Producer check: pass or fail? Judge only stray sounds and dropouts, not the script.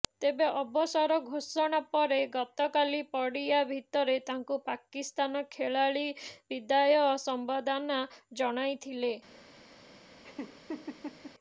fail